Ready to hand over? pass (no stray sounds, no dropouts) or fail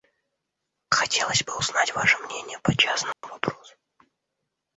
fail